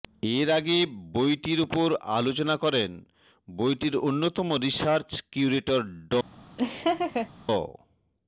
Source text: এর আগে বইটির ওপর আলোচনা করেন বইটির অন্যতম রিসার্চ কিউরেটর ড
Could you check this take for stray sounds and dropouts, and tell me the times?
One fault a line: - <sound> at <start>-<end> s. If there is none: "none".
- laugh at 6.6-7.3 s